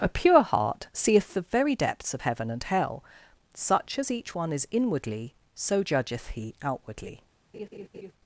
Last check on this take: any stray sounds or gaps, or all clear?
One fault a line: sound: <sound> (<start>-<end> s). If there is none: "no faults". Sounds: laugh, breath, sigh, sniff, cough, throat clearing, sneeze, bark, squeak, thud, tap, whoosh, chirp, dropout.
sound: laugh (7.5-8.1 s)